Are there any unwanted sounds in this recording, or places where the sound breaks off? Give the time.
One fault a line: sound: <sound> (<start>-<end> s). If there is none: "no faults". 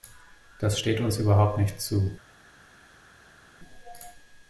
no faults